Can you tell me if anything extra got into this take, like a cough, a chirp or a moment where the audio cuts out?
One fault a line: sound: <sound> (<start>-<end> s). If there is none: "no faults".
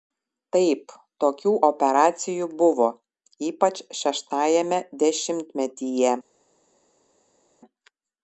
no faults